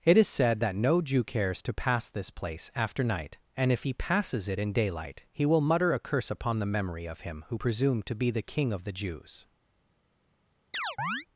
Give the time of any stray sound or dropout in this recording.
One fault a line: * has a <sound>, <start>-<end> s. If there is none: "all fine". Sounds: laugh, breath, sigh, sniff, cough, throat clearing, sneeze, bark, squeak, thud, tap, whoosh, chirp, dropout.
* has a chirp, 10.7-11.3 s